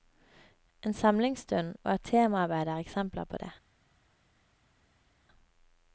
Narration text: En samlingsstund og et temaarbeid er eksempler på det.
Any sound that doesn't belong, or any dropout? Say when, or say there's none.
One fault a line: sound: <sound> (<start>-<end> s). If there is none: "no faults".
no faults